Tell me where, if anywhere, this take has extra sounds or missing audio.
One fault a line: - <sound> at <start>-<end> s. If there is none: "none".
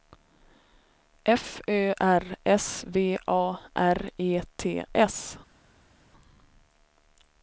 none